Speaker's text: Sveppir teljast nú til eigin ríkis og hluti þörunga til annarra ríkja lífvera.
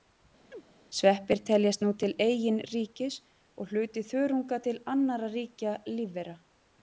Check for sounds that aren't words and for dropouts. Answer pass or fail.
fail